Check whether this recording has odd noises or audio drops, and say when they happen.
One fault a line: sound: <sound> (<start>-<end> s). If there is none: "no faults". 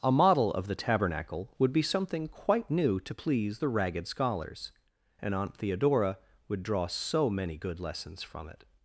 no faults